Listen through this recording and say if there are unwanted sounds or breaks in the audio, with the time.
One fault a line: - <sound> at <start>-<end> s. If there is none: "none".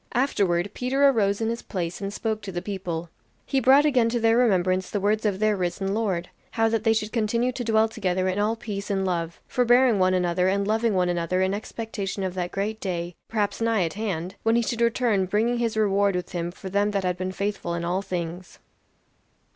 none